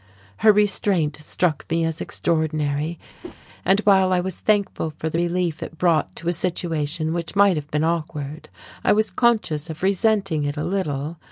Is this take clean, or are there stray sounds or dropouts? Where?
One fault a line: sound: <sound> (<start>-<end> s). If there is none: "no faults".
sound: whoosh (3.2-3.4 s)